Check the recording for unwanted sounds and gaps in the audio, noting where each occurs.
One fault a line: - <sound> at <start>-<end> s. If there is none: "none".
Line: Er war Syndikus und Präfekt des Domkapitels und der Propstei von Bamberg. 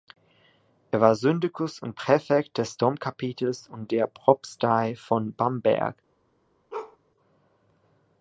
- bark at 6.7-7.0 s